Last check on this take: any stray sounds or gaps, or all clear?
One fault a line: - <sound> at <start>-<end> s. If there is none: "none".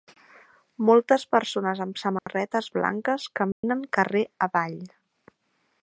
- dropout at 2.2-2.3 s
- dropout at 3.5-3.6 s